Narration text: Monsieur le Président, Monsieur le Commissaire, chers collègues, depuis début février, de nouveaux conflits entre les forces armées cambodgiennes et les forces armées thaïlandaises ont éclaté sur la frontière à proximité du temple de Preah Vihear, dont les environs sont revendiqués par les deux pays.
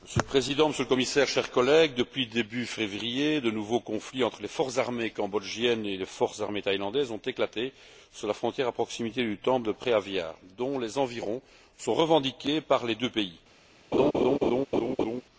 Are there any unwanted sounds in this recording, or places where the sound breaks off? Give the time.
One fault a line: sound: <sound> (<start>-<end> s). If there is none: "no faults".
sound: laugh (13.9-15.2 s)